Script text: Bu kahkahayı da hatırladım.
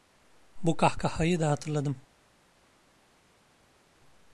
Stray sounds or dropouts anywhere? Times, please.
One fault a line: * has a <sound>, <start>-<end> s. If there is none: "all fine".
all fine